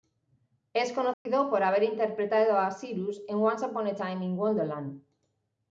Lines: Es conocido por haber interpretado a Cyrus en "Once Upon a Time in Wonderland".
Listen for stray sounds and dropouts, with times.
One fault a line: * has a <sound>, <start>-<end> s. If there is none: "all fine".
* has a dropout, 1.1-1.3 s